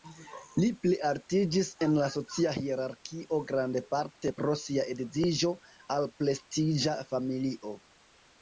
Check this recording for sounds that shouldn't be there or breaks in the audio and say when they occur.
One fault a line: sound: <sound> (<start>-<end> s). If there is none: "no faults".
no faults